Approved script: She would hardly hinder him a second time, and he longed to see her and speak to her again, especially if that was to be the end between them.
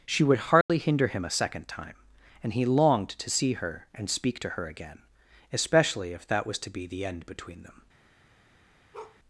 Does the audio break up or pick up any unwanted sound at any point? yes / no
yes